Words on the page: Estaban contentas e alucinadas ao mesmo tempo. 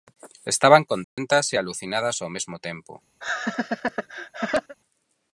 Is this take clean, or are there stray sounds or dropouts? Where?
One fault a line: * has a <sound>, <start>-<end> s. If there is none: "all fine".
* has a dropout, 1.0-1.2 s
* has a laugh, 3.2-4.8 s